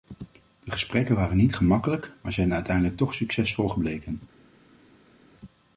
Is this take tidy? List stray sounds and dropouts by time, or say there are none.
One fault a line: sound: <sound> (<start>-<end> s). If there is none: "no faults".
no faults